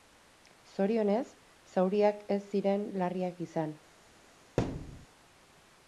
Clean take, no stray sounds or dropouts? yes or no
no